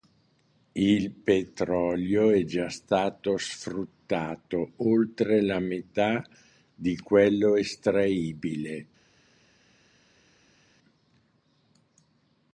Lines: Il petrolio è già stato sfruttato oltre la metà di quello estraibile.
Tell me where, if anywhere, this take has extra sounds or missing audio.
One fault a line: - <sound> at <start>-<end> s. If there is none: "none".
none